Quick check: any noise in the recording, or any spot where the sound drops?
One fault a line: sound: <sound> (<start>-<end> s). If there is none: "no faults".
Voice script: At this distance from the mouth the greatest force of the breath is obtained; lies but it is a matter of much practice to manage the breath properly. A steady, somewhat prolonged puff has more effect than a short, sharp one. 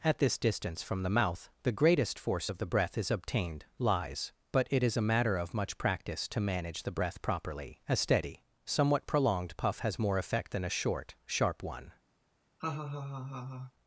sound: laugh (12.6-13.7 s)